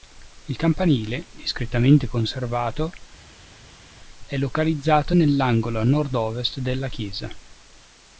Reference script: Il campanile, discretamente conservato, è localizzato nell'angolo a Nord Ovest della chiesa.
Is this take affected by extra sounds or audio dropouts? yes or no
no